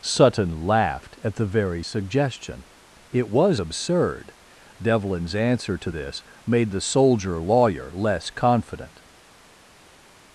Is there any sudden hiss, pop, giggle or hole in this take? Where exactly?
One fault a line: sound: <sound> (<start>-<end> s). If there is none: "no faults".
no faults